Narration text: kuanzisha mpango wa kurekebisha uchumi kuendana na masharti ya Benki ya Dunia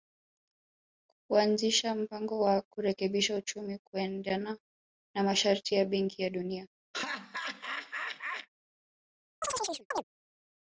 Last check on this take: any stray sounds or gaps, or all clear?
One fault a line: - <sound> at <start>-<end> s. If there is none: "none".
- laugh at 6.9-8.5 s
- chirp at 9.4-10.0 s